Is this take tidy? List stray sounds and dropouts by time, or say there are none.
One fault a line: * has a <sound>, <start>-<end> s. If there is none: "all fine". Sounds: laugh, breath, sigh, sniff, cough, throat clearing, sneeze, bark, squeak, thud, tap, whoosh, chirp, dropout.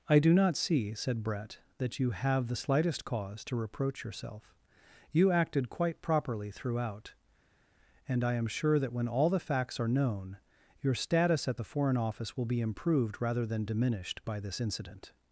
all fine